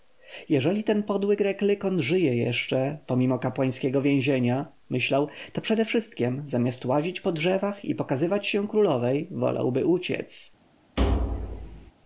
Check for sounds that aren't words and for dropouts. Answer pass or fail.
fail